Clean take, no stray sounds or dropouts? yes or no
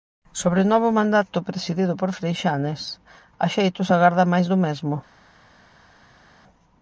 yes